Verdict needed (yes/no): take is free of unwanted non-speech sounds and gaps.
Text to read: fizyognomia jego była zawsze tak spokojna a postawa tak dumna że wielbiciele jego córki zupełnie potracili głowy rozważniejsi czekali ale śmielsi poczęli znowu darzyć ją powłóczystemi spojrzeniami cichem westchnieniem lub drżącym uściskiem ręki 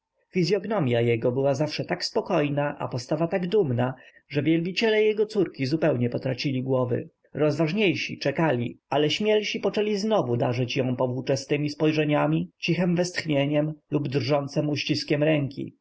yes